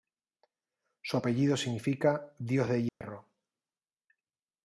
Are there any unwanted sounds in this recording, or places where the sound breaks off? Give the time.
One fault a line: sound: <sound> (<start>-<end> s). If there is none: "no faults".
sound: dropout (2.9-3.0 s)